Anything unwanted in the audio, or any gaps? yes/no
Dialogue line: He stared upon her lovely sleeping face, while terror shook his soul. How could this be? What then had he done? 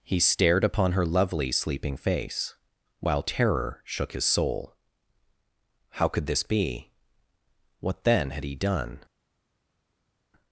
no